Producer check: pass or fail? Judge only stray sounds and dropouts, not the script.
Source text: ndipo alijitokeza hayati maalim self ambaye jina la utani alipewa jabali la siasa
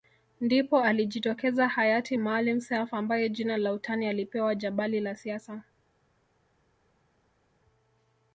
pass